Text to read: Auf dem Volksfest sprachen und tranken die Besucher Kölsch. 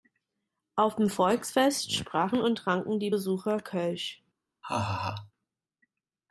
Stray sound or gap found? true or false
true